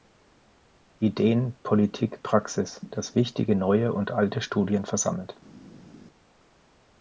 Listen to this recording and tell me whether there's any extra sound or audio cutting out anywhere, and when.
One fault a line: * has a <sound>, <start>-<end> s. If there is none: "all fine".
all fine